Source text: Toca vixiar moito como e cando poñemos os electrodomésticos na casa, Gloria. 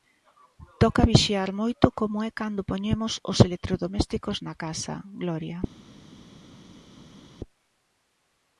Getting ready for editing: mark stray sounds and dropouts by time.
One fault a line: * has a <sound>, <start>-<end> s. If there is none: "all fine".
all fine